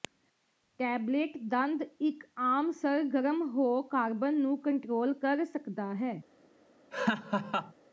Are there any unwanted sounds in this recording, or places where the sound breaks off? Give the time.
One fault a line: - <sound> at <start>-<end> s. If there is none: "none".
- laugh at 6.9-7.7 s